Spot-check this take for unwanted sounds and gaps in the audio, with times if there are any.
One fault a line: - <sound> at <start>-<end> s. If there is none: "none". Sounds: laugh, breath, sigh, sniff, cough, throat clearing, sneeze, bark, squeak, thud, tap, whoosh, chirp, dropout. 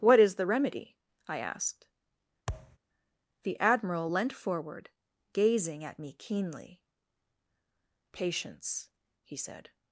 - thud at 2.5-2.8 s